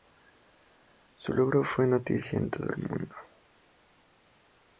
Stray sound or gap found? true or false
false